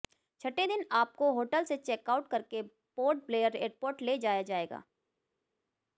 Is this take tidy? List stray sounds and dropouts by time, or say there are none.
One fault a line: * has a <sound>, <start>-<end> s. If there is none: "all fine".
all fine